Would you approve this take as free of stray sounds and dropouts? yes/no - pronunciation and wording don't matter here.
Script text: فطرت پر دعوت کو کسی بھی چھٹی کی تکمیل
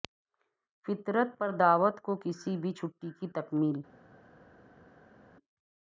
yes